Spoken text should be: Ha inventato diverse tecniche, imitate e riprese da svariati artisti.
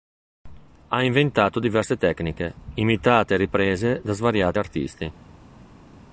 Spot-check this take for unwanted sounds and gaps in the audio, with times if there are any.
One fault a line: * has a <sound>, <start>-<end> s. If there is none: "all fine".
all fine